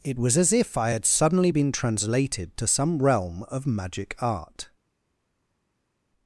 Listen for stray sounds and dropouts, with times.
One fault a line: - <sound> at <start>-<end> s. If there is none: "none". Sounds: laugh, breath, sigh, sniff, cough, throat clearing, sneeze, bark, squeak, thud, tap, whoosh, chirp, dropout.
none